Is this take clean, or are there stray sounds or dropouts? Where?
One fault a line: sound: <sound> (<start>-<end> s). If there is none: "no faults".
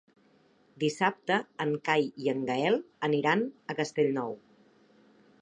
no faults